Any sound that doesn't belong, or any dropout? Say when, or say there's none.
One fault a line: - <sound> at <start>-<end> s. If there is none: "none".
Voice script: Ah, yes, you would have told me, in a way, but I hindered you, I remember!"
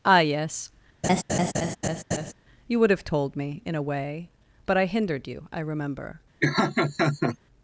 - laugh at 1.0-2.3 s
- laugh at 6.4-7.4 s